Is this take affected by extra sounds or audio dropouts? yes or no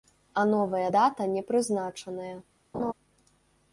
yes